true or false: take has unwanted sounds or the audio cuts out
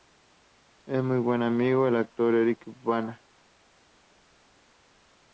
false